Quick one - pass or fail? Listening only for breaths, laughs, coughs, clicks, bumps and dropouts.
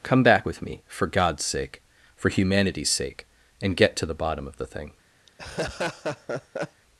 fail